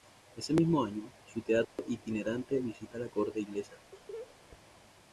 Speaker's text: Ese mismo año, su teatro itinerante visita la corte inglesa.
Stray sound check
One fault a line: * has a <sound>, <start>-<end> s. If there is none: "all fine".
* has a dropout, 1.6-1.8 s
* has a laugh, 3.9-4.4 s